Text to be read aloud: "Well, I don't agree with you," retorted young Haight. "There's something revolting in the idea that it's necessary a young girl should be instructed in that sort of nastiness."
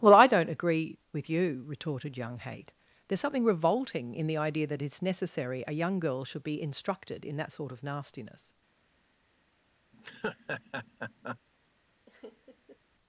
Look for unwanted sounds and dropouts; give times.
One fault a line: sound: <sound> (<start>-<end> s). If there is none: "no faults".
sound: laugh (9.9-11.4 s)
sound: laugh (12.1-12.8 s)